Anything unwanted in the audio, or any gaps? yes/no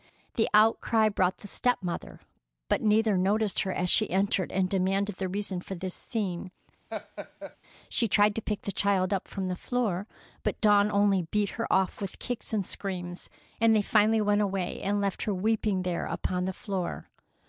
yes